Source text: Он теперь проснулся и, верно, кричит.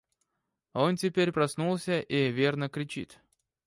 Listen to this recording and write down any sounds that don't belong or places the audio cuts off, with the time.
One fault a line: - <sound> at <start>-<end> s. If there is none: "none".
none